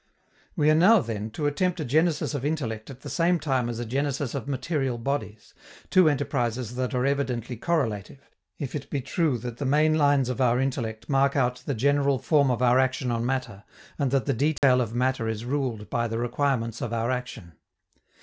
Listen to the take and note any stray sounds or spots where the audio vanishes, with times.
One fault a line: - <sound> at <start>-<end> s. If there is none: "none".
- dropout at 14.6-14.6 s